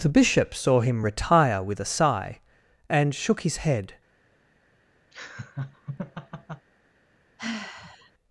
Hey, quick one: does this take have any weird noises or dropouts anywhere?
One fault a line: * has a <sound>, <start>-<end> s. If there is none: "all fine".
* has a laugh, 5.1-6.7 s
* has a sigh, 7.4-8.1 s